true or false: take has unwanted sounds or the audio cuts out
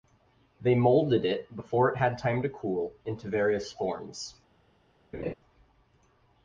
true